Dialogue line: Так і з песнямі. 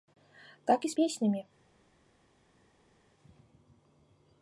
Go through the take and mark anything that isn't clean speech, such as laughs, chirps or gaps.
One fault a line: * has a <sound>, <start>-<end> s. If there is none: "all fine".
all fine